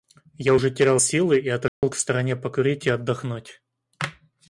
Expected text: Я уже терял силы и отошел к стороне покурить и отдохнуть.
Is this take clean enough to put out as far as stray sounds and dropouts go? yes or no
no